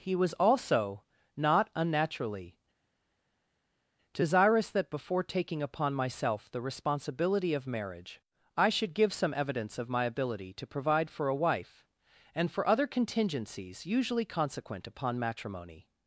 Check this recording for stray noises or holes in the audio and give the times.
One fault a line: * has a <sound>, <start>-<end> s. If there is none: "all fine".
all fine